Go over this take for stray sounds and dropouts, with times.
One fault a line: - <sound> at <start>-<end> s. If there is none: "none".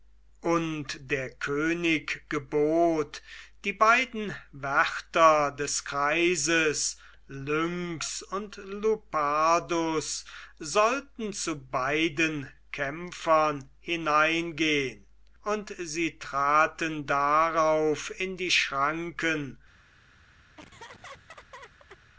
- laugh at 20.6-22.0 s